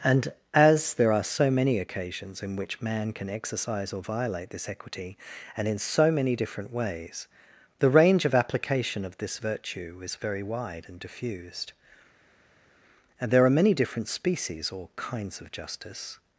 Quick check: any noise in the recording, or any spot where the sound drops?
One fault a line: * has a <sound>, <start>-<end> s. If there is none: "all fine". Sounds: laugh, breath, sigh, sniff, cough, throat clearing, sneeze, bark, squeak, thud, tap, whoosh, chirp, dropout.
all fine